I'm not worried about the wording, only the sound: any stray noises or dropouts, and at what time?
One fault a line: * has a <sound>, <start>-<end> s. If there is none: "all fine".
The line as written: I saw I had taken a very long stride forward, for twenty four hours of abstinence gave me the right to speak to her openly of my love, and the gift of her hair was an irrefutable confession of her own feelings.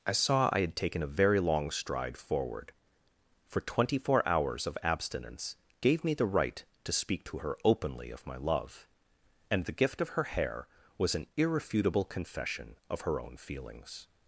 all fine